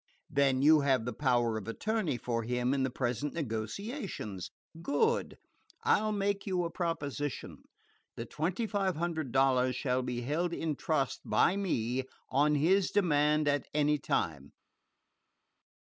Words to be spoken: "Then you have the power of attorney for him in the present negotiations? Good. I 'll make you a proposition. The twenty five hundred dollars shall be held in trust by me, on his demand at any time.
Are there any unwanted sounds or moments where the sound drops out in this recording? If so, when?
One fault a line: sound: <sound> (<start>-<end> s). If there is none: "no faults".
no faults